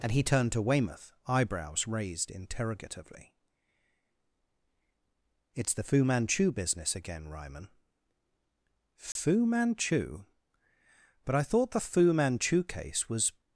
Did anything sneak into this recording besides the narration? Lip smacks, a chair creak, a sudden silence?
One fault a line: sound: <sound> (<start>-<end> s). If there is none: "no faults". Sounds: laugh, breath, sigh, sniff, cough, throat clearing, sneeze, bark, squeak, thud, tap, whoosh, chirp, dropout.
sound: dropout (9.1-9.2 s)